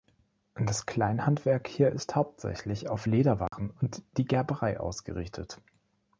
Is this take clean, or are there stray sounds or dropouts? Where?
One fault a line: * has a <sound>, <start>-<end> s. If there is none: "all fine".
* has a dropout, 3.5-3.5 s